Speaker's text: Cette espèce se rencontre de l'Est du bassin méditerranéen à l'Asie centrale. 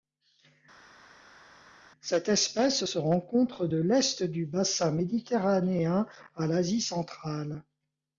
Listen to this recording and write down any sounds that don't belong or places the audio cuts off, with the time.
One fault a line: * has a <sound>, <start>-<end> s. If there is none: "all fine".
all fine